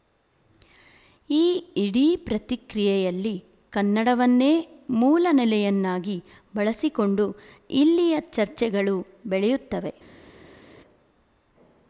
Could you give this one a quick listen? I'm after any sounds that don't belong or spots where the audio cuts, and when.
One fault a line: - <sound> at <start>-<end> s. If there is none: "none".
none